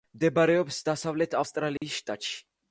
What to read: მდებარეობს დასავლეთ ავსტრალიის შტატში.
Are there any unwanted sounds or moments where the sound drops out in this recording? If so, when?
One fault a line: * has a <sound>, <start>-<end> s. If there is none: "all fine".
* has a dropout, 1.8-1.8 s